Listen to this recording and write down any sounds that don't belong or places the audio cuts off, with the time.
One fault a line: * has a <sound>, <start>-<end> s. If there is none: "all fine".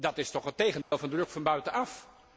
* has a dropout, 0.8-0.9 s